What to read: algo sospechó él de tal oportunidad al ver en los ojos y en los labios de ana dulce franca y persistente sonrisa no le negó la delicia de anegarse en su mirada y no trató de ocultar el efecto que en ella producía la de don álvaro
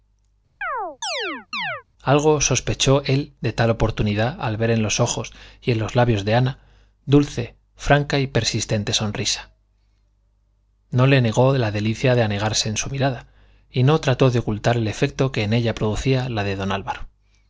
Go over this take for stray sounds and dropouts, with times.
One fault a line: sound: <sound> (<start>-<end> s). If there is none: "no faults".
sound: chirp (0.6-1.8 s)